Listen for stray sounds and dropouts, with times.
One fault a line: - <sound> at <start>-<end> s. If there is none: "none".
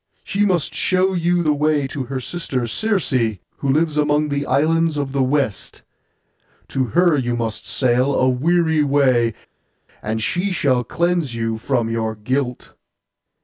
none